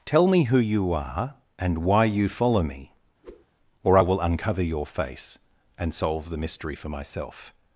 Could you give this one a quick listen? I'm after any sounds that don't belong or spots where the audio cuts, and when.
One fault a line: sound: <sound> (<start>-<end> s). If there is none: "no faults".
sound: whoosh (3.2-3.5 s)